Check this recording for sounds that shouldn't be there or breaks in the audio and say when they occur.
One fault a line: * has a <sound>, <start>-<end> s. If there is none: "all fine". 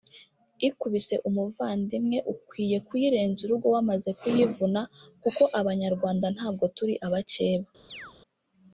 * has a chirp, 7.9-8.1 s